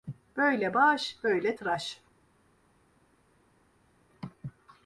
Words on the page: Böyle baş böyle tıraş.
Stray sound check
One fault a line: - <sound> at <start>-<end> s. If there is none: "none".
none